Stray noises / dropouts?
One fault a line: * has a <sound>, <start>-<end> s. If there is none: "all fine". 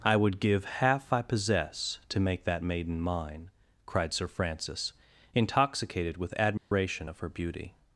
* has a dropout, 6.6-6.7 s